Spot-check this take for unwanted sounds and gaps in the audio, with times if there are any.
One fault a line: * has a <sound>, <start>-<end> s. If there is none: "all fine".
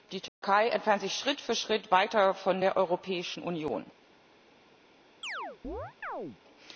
* has a dropout, 0.3-0.4 s
* has a chirp, 5.2-6.4 s